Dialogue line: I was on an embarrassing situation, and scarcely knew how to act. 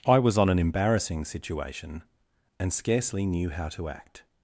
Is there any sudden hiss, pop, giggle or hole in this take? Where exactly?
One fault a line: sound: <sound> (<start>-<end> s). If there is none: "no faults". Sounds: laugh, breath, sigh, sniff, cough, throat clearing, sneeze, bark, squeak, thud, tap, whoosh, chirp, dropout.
no faults